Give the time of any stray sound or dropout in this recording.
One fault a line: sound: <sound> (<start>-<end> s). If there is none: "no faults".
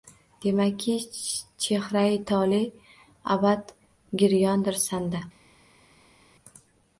no faults